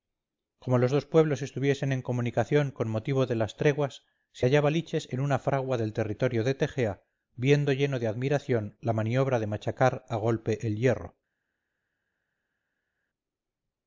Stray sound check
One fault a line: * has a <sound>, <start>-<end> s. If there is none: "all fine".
all fine